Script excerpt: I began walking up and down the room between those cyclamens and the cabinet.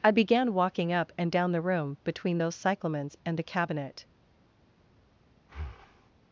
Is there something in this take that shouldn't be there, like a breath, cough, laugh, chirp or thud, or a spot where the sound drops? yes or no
yes